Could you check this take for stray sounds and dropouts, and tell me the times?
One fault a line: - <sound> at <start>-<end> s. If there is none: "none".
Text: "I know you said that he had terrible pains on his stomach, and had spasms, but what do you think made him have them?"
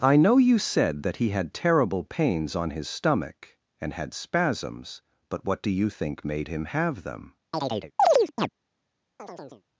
- chirp at 7.5-8.5 s
- chirp at 9.2-9.6 s